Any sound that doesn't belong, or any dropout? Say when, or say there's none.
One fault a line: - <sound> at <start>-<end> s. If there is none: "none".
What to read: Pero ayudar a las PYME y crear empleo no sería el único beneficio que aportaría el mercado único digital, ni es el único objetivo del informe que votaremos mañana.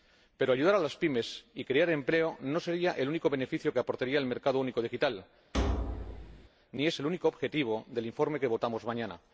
- thud at 5.5-6.5 s